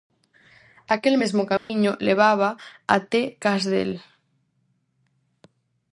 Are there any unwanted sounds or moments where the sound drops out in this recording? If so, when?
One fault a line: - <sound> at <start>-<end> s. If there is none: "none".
- dropout at 1.6-1.7 s